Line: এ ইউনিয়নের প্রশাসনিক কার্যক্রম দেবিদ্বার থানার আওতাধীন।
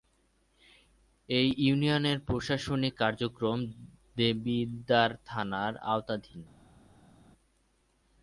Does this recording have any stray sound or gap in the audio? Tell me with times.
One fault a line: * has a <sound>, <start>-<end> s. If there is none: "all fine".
all fine